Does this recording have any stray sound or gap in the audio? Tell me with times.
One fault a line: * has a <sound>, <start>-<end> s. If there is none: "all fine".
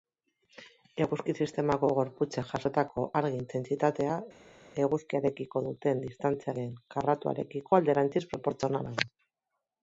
all fine